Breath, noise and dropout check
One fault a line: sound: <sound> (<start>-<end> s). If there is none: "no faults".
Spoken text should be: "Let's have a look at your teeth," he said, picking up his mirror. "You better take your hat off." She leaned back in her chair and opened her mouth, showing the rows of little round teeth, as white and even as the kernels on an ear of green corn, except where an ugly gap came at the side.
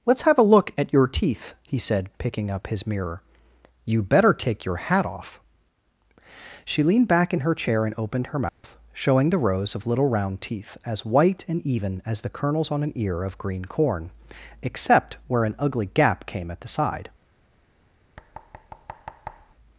sound: dropout (8.5-8.6 s)
sound: thud (18.2-19.5 s)